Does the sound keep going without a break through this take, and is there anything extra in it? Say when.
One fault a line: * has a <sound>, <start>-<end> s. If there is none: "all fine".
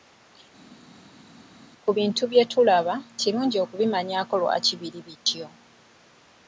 all fine